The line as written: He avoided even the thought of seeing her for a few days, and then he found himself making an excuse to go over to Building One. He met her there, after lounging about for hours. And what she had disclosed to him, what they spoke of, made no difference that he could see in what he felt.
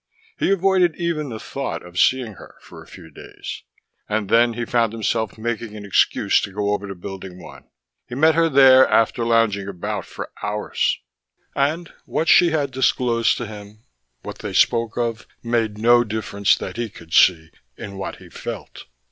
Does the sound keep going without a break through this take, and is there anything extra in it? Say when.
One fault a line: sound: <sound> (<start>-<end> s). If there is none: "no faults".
no faults